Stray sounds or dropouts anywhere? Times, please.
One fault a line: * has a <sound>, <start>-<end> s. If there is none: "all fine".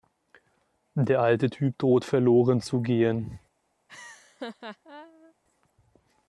* has a laugh, 3.9-5.3 s